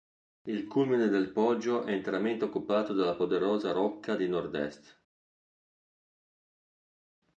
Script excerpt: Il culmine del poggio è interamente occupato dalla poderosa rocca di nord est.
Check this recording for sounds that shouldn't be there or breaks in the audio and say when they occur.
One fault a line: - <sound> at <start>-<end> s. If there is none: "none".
none